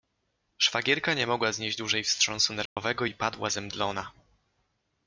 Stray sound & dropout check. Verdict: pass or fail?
fail